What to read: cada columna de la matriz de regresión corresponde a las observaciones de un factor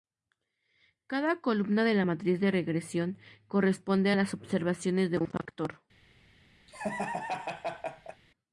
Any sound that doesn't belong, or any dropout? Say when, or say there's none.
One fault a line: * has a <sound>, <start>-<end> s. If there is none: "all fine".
* has a laugh, 6.7-8.2 s